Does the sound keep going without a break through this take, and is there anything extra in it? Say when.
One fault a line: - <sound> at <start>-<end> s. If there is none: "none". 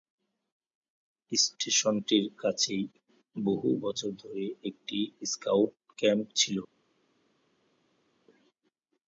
none